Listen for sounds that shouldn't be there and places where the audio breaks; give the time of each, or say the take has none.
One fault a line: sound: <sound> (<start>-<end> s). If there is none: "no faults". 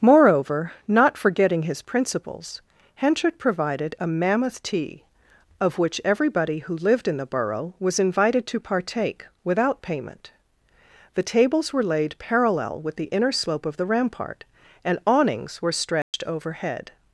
sound: dropout (16.0-16.1 s)